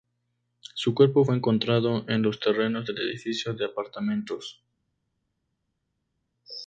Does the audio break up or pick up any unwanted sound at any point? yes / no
no